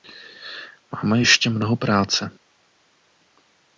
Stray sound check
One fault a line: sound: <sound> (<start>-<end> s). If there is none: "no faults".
no faults